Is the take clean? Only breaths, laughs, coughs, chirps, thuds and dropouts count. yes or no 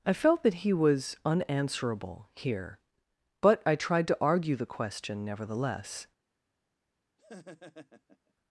no